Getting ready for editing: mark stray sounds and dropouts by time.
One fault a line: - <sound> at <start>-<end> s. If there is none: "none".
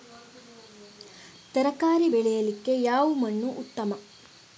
none